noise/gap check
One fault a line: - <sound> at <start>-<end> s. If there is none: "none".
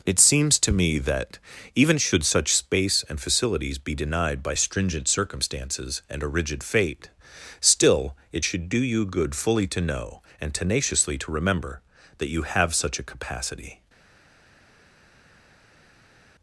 none